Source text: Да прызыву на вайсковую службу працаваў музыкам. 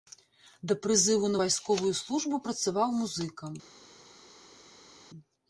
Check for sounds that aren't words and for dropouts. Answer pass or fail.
pass